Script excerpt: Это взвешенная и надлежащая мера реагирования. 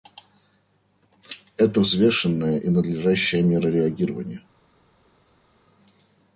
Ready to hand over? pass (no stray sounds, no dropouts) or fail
pass